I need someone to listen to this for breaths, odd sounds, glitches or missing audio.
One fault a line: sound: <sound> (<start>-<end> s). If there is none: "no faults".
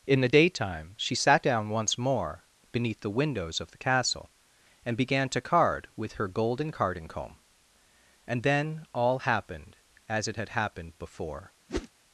sound: whoosh (11.7-11.9 s)